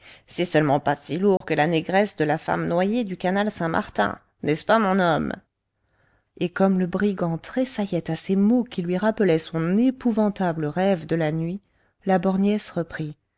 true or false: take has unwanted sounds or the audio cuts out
true